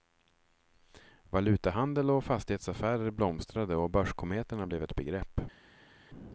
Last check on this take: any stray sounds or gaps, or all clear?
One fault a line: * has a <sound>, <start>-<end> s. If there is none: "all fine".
all fine